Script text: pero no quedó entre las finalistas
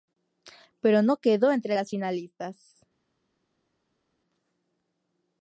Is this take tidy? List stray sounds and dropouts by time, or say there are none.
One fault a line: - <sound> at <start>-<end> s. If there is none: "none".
none